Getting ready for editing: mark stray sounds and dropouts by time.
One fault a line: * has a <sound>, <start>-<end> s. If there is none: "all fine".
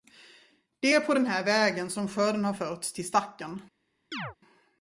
* has a chirp, 4.1-4.4 s